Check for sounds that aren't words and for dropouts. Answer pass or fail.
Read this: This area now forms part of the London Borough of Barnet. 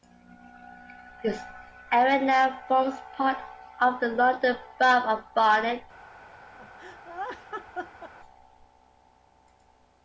fail